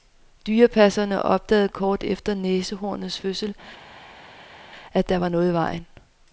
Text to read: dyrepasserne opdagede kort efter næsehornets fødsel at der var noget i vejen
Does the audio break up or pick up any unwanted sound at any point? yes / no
no